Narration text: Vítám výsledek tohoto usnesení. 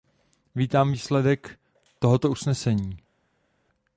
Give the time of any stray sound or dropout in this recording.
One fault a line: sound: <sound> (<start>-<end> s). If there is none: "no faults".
no faults